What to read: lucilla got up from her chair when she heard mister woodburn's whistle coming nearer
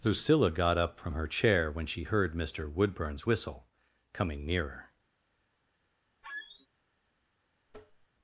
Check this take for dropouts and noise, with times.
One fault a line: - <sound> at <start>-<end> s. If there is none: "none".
- squeak at 6.2-6.7 s
- tap at 7.7-8.1 s